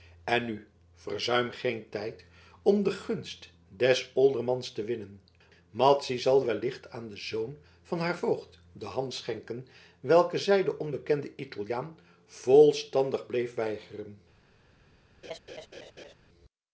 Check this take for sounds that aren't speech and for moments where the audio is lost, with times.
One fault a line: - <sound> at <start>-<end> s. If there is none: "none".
- laugh at 15.2-16.1 s